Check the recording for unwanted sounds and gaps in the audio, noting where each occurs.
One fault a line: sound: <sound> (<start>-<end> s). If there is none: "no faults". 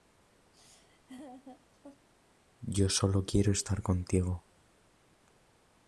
sound: laugh (0.5-2.1 s)